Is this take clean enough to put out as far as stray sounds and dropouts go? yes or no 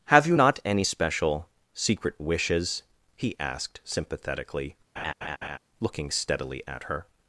no